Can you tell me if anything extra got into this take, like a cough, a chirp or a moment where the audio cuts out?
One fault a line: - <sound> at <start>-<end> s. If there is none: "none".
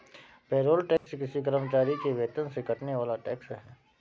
- dropout at 1.0-1.1 s